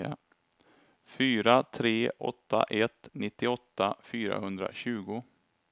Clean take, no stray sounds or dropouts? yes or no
yes